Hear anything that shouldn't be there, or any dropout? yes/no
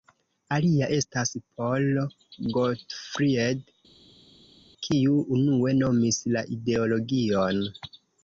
no